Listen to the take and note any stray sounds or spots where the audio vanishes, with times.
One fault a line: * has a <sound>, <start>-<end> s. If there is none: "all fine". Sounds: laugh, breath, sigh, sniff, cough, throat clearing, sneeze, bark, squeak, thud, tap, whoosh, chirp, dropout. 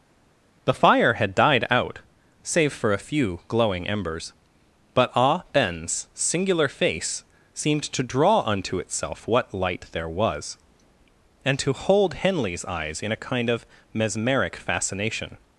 all fine